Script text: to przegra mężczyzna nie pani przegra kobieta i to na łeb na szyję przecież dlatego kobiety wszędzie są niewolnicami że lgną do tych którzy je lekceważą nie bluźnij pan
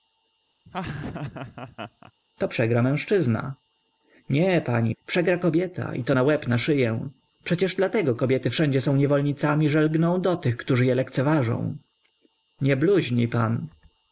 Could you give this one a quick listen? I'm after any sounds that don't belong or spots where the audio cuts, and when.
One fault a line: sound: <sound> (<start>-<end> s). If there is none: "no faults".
sound: laugh (0.7-2.1 s)